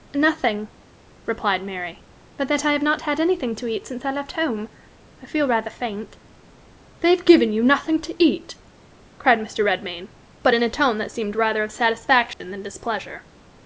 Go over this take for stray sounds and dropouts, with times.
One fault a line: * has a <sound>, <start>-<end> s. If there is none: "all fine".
* has a dropout, 12.3-12.4 s